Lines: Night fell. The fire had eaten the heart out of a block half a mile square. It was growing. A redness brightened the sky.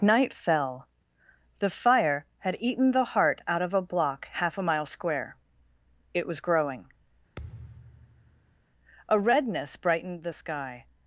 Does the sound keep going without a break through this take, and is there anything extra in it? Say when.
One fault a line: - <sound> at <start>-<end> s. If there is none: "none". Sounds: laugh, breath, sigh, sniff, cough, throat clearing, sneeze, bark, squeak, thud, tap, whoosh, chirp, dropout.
- thud at 7.4-8.7 s